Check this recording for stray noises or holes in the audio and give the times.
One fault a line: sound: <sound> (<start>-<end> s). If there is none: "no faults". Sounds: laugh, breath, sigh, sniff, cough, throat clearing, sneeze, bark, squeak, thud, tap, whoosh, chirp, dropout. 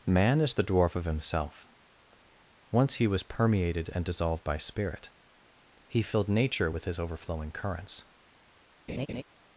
sound: laugh (8.9-9.2 s)